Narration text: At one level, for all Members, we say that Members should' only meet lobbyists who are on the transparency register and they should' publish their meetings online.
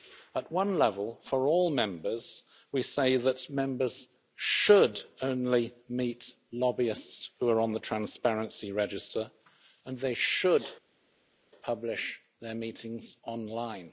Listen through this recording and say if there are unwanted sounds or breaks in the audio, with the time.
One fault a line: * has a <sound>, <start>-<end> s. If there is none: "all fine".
all fine